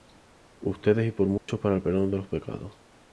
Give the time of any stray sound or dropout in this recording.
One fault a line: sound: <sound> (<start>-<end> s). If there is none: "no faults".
sound: dropout (1.4-1.5 s)